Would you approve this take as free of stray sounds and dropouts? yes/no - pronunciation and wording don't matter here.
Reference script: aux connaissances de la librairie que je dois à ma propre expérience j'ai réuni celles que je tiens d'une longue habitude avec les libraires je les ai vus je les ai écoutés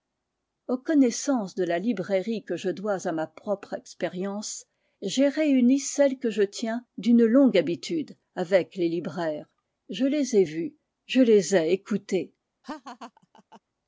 no